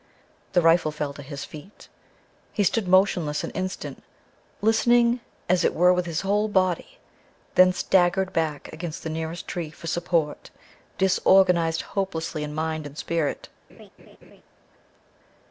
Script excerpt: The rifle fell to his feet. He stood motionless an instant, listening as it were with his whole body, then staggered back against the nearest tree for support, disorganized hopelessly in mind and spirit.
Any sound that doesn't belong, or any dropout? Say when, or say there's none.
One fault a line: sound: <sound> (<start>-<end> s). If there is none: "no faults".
sound: laugh (13.7-14.4 s)